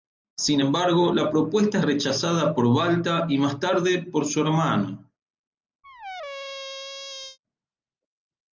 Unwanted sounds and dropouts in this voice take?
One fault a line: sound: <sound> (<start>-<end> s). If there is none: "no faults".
sound: squeak (5.8-7.4 s)